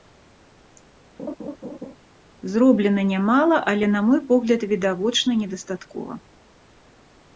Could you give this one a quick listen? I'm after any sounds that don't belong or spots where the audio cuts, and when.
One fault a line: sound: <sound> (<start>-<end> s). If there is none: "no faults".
sound: laugh (1.2-2.0 s)